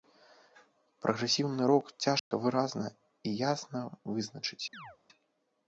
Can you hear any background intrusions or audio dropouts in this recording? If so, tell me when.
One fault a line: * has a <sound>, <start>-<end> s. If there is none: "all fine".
* has a dropout, 2.2-2.3 s
* has a chirp, 4.7-5.0 s